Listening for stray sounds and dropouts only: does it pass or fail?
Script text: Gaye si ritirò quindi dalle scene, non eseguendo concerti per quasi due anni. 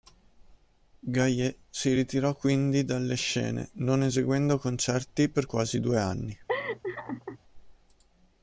fail